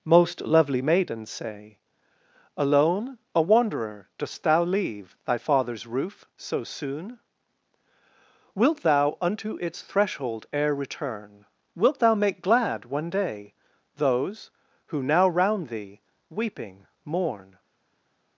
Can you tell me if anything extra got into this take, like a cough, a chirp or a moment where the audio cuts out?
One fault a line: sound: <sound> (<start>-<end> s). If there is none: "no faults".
no faults